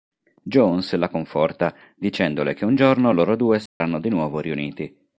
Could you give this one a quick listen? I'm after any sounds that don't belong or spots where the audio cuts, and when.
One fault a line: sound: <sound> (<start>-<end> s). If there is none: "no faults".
sound: dropout (3.7-3.8 s)